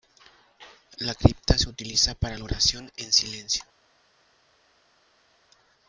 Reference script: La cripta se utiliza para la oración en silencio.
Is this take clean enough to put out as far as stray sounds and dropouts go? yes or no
yes